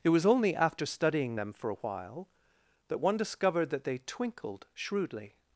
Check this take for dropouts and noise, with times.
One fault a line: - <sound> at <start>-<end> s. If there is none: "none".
none